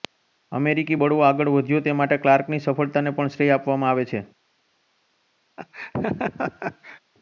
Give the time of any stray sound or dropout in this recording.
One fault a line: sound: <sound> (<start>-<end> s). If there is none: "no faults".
sound: laugh (5.6-7.0 s)